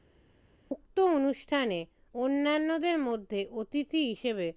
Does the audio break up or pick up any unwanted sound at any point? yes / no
no